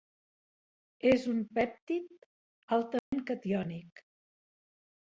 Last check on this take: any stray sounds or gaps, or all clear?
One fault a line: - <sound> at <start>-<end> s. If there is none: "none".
- dropout at 3.0-3.1 s